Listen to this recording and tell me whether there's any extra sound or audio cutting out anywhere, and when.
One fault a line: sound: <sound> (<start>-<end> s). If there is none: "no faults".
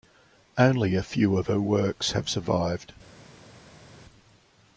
no faults